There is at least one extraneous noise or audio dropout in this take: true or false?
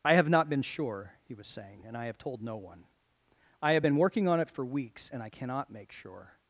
false